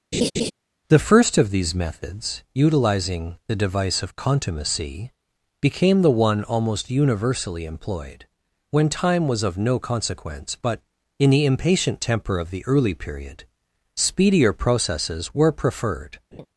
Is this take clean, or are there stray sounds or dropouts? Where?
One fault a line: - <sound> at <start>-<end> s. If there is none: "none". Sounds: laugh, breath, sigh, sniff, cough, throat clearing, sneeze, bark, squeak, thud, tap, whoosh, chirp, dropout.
- laugh at 0.1-0.5 s
- laugh at 16.3-16.5 s